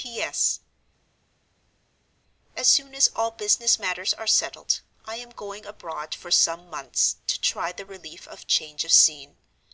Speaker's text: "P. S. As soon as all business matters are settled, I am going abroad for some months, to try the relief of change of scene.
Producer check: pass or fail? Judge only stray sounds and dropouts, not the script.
pass